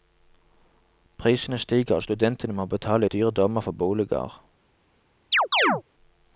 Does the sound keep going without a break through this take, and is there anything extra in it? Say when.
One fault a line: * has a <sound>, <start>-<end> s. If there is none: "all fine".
* has a chirp, 5.3-5.8 s